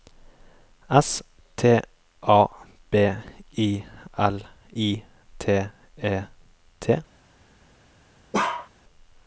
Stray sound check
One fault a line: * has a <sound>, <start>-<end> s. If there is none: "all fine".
* has a bark, 8.3-8.7 s